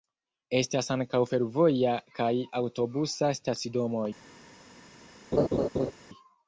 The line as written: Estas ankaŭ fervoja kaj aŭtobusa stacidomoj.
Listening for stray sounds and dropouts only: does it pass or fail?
fail